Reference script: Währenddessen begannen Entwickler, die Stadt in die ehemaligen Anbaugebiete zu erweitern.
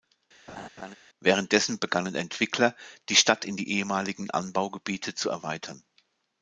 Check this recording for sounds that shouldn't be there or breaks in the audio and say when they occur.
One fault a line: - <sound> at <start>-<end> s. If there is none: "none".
- laugh at 0.5-1.0 s